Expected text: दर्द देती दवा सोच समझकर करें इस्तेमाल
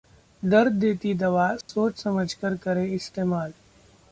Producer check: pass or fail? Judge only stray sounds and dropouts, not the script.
fail